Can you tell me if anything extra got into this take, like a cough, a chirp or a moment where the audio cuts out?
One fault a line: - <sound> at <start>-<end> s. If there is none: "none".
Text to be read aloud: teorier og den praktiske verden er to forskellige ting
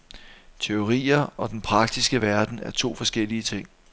none